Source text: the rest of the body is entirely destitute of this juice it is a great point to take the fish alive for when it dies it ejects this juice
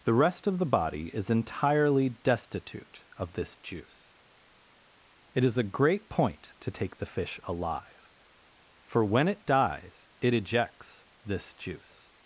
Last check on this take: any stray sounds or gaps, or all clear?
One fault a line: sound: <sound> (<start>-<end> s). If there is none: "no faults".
no faults